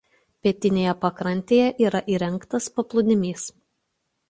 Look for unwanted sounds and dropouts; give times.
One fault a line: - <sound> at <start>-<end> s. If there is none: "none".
none